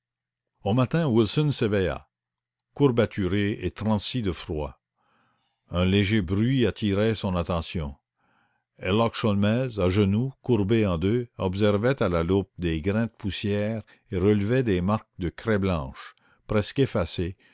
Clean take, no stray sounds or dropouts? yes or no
yes